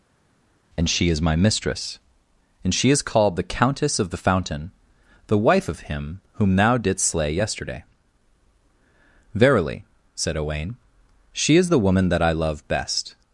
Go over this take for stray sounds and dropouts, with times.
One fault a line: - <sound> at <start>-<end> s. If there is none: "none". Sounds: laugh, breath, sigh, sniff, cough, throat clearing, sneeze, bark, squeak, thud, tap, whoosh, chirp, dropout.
none